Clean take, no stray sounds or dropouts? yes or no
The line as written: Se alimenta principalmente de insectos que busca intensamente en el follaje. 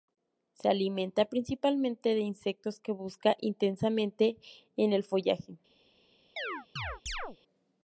no